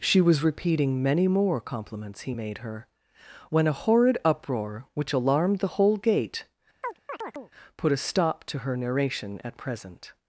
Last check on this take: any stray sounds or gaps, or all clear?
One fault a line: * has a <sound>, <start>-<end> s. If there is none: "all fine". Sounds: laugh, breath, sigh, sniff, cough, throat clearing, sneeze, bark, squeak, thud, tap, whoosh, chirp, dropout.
* has a chirp, 6.8-7.5 s